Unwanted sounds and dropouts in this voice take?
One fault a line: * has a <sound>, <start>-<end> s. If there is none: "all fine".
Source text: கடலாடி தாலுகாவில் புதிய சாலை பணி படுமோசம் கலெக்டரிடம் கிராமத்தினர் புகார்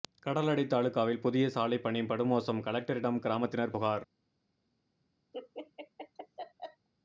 * has a laugh, 5.3-6.9 s